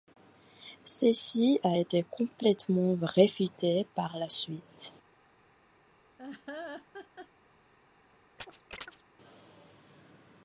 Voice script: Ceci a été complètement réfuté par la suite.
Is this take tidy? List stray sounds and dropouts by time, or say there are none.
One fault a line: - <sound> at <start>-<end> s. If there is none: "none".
- laugh at 6.2-7.3 s
- chirp at 8.4-9.0 s